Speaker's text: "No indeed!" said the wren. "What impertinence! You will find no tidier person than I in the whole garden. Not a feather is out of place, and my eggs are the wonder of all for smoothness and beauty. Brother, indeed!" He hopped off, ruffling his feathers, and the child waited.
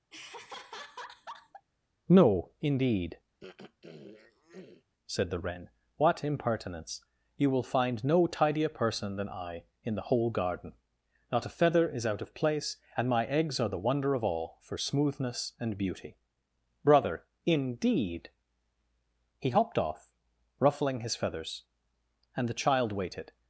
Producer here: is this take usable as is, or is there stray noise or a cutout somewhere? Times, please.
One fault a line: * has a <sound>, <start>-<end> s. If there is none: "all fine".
* has a laugh, 0.1-1.7 s
* has a throat clearing, 3.4-4.8 s